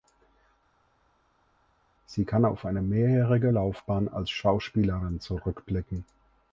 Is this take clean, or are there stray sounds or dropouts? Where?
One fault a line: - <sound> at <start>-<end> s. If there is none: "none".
none